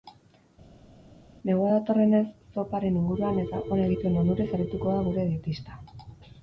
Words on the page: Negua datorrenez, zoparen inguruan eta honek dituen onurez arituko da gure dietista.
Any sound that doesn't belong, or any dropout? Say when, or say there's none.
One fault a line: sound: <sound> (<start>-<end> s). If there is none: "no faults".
no faults